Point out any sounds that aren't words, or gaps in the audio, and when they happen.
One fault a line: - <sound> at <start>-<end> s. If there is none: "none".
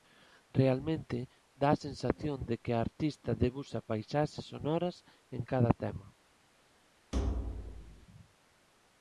- thud at 7.1-8.1 s